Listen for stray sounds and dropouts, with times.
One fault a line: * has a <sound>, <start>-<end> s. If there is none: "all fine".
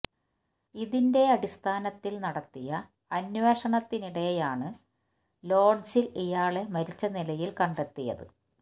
all fine